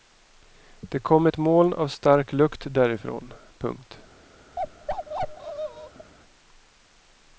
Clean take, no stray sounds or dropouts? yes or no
no